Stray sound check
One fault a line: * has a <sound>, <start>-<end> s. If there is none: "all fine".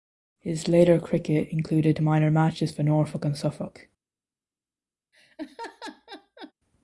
* has a laugh, 5.1-6.5 s